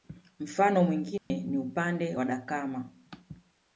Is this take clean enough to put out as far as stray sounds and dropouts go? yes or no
no